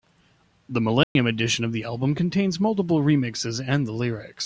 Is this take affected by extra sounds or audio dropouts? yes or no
yes